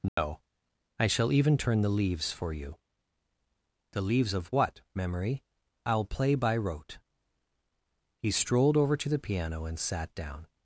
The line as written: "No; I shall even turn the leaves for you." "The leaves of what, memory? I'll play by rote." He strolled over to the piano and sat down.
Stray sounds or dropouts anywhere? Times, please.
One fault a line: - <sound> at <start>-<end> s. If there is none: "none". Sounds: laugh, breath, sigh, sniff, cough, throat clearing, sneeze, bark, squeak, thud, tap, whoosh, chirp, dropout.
- dropout at 0.1-0.2 s